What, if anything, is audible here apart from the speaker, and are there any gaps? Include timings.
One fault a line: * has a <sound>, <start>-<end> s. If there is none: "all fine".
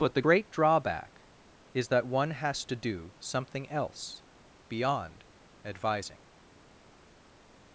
all fine